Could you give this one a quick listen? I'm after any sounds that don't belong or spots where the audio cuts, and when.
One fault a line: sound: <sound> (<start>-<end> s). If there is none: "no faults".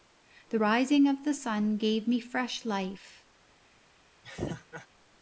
sound: laugh (4.2-4.9 s)